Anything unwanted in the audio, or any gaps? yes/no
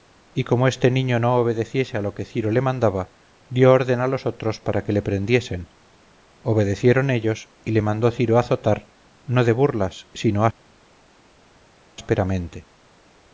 no